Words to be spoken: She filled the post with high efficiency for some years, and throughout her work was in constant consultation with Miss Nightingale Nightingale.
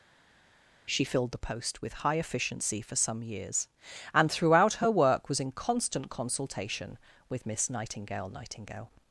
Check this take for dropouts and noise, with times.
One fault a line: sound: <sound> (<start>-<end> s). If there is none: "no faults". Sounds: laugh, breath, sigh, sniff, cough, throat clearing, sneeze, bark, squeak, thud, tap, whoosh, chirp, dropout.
no faults